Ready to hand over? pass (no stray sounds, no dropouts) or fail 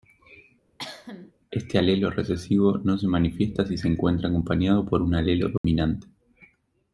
fail